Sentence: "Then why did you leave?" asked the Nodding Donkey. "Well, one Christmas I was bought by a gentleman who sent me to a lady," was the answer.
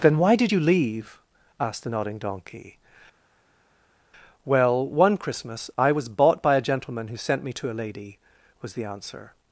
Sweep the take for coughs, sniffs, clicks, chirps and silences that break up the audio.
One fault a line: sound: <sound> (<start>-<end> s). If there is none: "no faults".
no faults